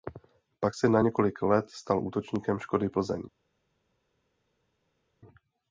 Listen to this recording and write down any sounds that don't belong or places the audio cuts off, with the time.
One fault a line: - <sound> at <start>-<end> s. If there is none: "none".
none